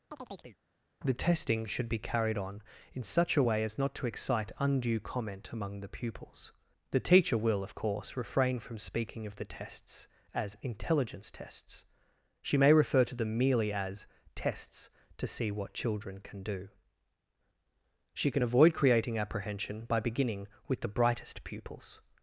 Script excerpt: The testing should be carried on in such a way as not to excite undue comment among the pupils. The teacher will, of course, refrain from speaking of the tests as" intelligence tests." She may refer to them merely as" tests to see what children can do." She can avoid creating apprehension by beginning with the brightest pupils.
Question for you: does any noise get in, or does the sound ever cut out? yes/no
yes